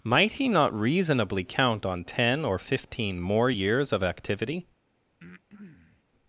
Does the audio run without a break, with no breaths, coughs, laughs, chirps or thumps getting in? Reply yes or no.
no